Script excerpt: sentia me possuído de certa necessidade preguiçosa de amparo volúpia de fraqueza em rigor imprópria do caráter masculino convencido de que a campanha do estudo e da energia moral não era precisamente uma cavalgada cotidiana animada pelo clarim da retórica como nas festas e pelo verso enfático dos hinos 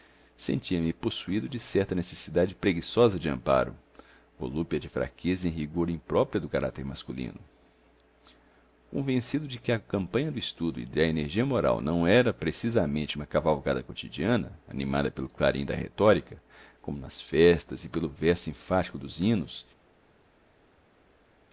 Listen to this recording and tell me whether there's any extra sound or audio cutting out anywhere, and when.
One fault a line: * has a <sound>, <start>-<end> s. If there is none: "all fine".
all fine